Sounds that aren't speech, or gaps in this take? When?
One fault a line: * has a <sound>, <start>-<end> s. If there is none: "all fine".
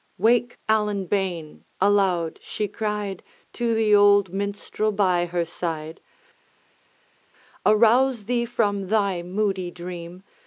all fine